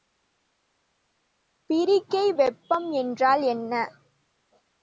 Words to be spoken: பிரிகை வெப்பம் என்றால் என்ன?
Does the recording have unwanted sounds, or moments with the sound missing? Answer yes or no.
no